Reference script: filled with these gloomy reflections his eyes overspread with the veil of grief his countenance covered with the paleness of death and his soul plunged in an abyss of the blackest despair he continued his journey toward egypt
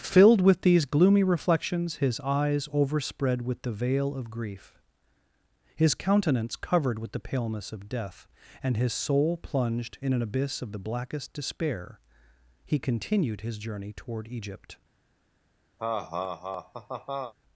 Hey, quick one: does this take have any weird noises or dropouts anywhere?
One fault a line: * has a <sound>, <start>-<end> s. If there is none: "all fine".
* has a laugh, 15.8-17.3 s